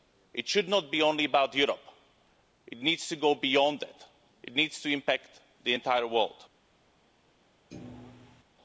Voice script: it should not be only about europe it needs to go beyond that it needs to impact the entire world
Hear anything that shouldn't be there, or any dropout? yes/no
yes